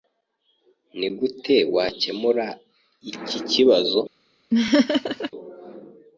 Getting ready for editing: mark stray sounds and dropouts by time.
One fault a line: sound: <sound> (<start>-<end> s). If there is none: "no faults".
sound: laugh (4.5-5.3 s)